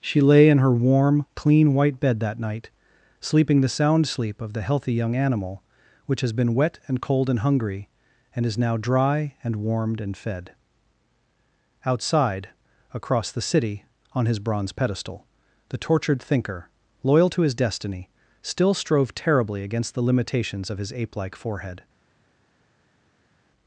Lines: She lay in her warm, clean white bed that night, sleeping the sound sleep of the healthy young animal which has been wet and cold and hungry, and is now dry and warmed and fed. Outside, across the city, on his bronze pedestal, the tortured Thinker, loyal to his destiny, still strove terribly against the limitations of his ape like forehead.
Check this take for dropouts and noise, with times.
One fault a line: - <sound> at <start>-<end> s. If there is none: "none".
none